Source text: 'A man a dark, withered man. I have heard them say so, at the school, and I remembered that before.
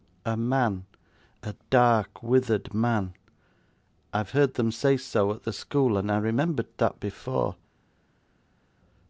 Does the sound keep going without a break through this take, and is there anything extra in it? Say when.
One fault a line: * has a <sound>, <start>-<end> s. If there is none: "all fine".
all fine